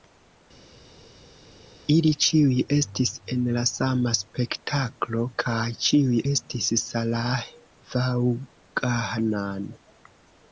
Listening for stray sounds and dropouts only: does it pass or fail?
pass